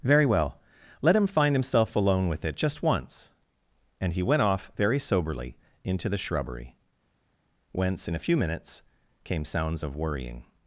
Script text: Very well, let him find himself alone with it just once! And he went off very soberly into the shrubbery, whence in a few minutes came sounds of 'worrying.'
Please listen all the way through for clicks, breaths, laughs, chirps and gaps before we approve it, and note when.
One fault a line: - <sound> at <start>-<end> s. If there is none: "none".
none